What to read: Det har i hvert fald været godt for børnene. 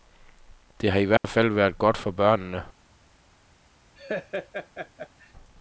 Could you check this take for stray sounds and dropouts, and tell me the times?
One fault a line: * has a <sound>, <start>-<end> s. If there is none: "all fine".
* has a dropout, 1.2-1.2 s
* has a laugh, 4.0-5.3 s